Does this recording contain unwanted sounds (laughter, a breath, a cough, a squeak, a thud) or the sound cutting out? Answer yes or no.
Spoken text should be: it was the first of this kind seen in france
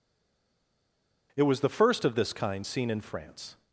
no